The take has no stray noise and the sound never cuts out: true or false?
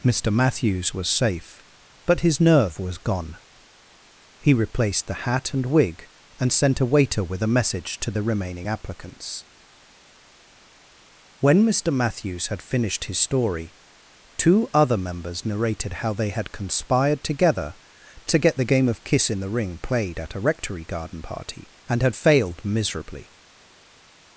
true